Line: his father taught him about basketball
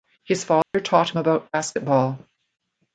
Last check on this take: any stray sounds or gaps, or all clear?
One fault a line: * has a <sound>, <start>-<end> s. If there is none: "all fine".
* has a dropout, 0.6-0.7 s